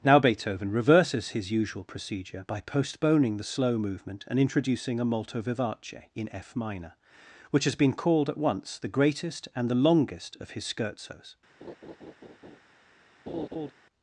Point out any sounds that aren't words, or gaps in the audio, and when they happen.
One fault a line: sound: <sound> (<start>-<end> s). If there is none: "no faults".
sound: laugh (11.6-12.6 s)
sound: laugh (13.3-13.7 s)